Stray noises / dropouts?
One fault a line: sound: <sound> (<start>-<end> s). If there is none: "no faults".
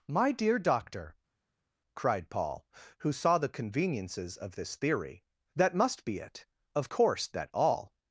no faults